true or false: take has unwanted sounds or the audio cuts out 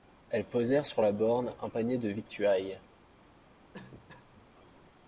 true